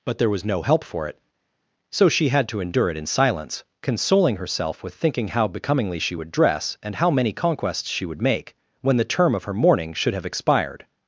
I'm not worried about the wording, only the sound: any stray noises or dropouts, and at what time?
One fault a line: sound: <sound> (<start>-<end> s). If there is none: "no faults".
no faults